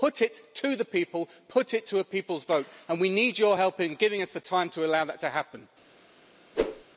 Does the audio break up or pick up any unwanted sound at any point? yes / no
yes